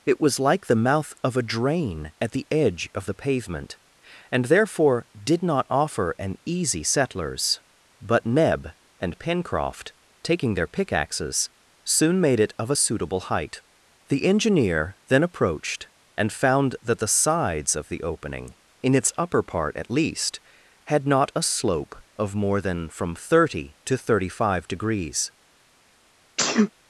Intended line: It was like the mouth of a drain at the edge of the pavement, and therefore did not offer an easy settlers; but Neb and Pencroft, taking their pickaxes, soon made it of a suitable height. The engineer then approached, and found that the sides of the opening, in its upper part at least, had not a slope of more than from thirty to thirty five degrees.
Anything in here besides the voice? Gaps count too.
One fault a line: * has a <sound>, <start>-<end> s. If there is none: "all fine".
* has a sneeze, 26.4-26.7 s